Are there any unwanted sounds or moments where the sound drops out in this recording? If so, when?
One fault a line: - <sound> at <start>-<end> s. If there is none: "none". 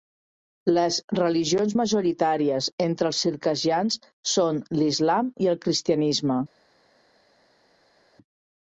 none